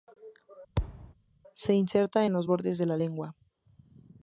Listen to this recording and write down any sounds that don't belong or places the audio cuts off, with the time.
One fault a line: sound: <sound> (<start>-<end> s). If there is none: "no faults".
sound: thud (0.8-1.1 s)